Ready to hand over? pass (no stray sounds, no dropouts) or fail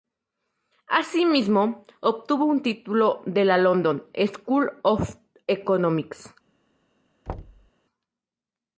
fail